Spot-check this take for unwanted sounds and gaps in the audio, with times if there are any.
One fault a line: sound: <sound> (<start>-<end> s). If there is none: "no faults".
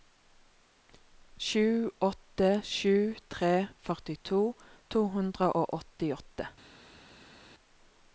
no faults